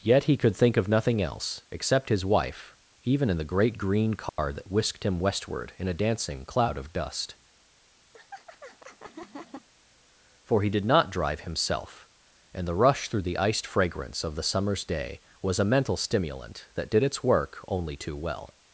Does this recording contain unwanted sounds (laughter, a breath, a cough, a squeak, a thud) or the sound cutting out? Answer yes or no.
yes